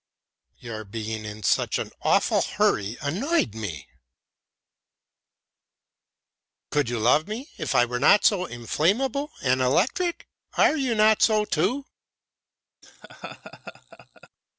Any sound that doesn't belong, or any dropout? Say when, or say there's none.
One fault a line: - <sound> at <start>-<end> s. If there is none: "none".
- laugh at 12.8-14.3 s